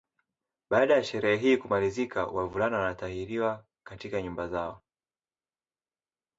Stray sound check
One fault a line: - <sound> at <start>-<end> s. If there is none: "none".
none